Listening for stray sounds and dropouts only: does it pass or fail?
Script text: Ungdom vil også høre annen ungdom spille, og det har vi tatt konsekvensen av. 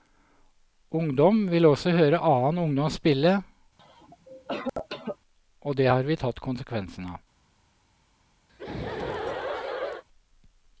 fail